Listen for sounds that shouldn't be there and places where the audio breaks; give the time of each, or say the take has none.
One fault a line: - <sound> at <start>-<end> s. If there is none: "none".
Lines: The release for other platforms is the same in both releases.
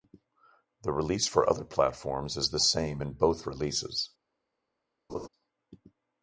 - laugh at 5.1-5.3 s